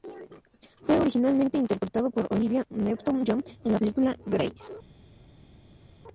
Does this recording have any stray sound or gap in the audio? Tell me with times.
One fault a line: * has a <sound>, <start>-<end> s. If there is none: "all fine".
all fine